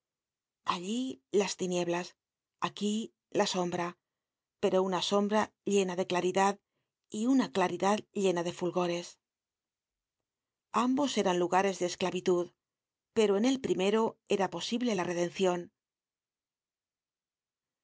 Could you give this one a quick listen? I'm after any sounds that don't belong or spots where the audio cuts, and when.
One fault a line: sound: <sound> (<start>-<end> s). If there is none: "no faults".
no faults